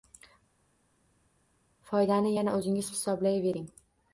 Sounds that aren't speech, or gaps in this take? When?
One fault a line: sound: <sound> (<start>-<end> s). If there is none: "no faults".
no faults